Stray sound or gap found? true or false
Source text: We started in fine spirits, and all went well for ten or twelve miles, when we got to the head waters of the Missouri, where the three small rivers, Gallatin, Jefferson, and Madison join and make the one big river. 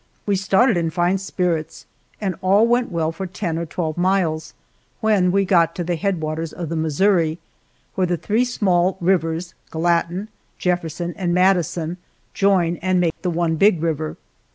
true